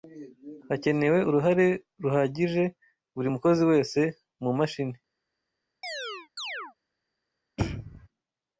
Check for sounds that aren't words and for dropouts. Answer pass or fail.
fail